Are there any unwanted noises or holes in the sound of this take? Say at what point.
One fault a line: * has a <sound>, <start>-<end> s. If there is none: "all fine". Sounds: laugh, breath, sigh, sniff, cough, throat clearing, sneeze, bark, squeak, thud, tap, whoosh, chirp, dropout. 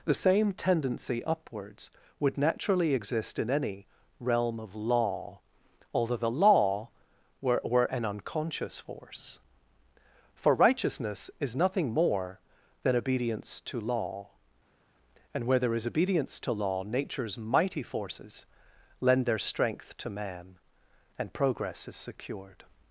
all fine